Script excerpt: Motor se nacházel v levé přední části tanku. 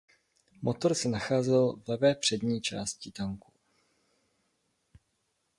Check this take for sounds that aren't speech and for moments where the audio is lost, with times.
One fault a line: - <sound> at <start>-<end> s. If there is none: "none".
none